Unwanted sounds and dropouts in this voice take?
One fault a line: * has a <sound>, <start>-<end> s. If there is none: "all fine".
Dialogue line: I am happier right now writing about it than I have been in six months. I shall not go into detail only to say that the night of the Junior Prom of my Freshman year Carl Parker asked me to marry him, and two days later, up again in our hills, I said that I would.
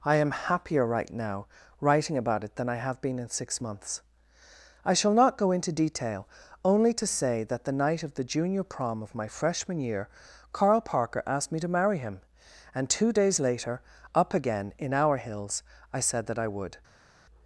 all fine